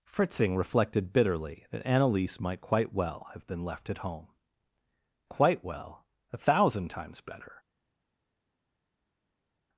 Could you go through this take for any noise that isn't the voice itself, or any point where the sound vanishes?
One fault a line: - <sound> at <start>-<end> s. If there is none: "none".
none